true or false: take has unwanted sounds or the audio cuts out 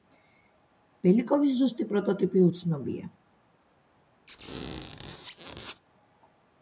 true